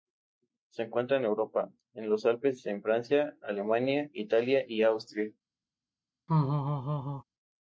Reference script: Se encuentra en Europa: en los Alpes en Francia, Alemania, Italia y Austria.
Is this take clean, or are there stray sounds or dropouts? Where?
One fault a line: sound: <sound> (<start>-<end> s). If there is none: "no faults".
sound: laugh (6.3-7.2 s)